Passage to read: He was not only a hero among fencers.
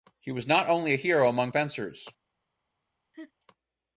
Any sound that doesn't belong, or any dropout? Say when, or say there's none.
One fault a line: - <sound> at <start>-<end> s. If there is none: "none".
- laugh at 3.1-3.3 s